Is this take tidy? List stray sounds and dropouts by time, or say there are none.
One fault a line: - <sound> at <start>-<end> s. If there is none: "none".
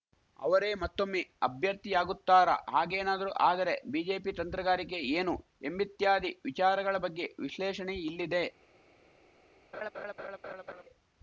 - laugh at 9.7-10.8 s